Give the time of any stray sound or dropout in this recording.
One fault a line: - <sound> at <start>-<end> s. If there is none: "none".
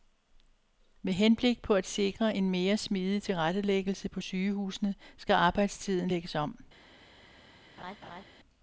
- laugh at 7.8-8.2 s